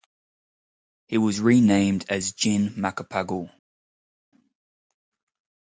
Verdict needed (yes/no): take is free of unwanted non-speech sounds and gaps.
yes